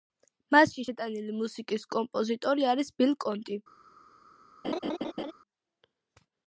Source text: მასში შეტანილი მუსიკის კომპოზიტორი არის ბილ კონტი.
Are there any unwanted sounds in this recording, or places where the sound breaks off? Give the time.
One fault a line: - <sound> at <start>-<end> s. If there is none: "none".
- laugh at 4.6-5.3 s